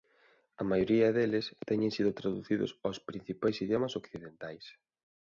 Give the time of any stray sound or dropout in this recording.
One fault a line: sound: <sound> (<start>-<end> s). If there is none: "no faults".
no faults